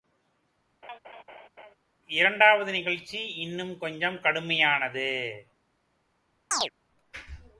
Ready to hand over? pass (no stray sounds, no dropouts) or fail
fail